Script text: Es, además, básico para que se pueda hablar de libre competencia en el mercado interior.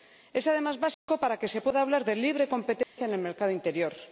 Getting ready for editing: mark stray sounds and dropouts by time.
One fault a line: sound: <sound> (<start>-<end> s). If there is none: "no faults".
sound: dropout (0.9-1.1 s)
sound: dropout (2.8-3.0 s)